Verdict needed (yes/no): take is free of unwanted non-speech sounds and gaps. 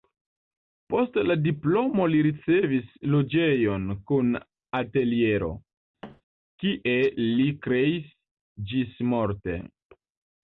no